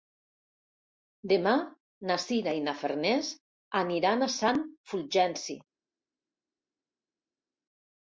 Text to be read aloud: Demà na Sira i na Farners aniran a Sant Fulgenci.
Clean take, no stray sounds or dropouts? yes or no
yes